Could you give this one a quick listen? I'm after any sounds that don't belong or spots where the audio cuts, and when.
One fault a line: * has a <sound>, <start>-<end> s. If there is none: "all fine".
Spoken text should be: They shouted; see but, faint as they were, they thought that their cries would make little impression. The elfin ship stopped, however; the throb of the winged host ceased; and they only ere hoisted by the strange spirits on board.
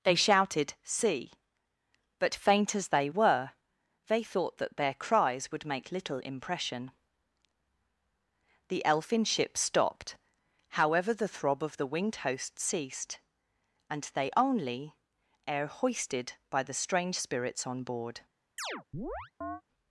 * has a chirp, 18.6-19.6 s